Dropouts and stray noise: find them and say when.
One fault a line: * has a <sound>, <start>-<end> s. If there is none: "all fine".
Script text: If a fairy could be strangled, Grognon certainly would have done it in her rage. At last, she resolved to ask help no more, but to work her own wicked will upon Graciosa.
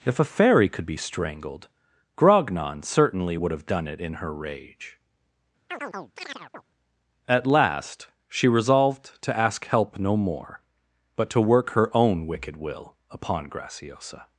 * has a chirp, 5.7-6.6 s